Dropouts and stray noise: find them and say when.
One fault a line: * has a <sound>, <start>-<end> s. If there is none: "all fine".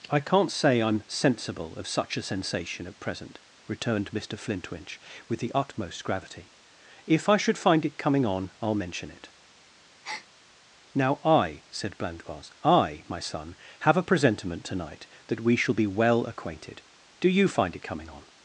* has a breath, 10.0-10.3 s